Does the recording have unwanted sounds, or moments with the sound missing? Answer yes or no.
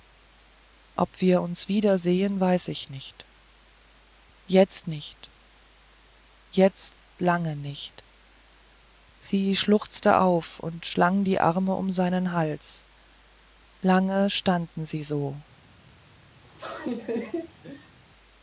yes